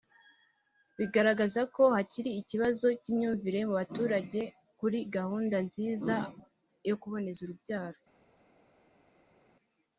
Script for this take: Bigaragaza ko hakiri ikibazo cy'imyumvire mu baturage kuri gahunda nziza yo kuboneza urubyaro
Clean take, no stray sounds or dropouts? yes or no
yes